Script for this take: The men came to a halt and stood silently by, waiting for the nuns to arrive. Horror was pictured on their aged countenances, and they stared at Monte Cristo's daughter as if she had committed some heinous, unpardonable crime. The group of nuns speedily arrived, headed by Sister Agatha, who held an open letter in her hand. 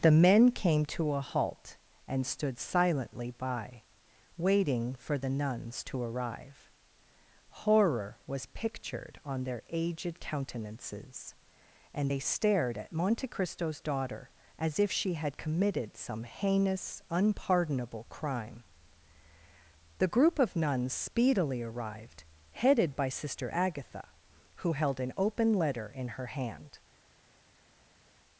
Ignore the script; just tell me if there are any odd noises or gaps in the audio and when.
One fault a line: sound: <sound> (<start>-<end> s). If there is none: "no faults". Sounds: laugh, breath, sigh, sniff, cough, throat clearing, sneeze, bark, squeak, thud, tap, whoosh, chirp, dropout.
no faults